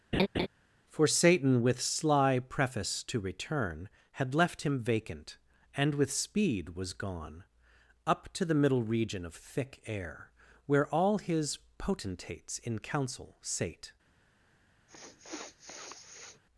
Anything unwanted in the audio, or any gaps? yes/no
yes